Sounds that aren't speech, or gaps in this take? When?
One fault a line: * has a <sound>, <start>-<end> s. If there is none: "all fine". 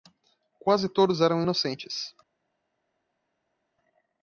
all fine